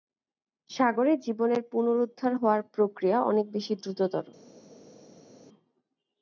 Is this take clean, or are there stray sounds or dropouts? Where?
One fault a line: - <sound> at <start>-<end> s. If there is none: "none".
none